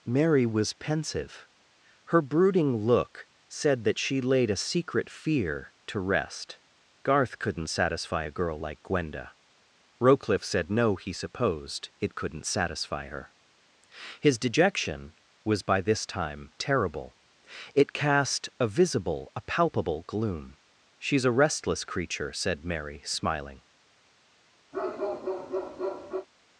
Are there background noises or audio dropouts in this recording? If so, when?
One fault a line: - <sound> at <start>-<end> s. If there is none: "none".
- bark at 24.7-26.3 s